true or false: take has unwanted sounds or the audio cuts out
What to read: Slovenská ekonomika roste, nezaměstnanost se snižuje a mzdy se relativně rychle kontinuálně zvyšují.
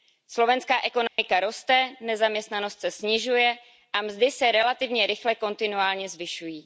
true